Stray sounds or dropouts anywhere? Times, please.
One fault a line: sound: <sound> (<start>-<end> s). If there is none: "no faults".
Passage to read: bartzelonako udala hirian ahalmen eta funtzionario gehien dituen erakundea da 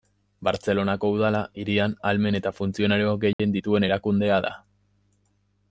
sound: dropout (3.3-3.4 s)